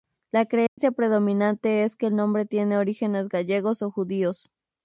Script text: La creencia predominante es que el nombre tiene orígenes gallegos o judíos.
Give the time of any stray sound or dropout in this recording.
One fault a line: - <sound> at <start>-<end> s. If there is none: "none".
- dropout at 0.7-0.8 s